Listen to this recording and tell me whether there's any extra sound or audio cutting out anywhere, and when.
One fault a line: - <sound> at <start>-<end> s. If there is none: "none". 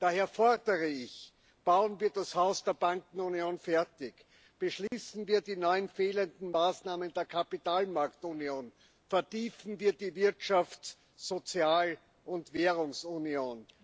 - dropout at 4.9-4.9 s